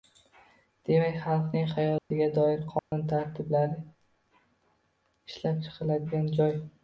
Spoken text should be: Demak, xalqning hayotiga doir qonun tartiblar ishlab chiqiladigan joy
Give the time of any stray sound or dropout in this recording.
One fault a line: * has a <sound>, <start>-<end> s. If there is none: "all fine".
* has a dropout, 2.0-2.1 s
* has a dropout, 2.8-2.9 s